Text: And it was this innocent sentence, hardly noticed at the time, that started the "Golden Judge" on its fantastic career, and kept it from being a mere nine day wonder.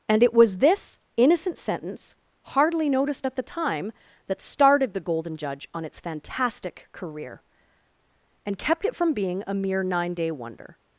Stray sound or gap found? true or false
false